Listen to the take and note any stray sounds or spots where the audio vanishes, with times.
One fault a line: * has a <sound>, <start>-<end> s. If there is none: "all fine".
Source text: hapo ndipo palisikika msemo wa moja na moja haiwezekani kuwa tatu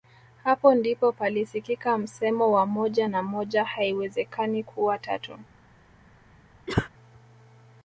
* has a cough, 6.7-6.9 s